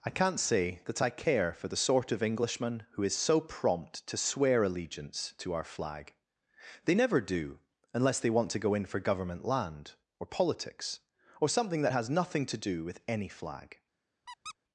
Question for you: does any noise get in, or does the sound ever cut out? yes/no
yes